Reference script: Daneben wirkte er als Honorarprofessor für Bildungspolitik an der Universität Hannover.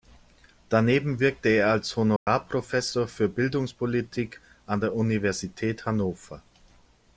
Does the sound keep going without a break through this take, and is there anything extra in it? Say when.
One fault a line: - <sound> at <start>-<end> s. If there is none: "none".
- dropout at 2.2-2.3 s